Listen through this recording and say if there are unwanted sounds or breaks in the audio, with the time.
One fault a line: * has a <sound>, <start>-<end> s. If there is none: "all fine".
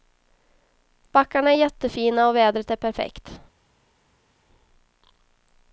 all fine